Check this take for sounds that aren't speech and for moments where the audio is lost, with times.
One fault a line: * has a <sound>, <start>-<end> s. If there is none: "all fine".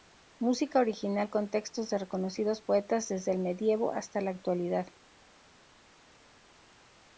all fine